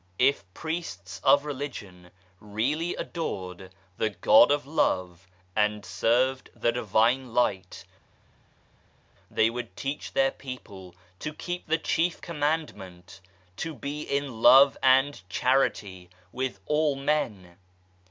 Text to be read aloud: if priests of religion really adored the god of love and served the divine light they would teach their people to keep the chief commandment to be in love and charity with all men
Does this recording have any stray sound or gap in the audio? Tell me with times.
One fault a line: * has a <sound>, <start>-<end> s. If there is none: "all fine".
all fine